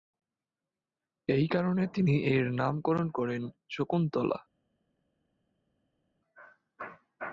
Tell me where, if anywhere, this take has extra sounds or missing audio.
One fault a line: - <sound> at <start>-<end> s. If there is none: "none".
none